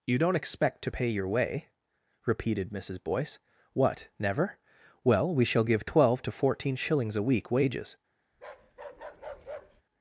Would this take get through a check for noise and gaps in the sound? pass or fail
fail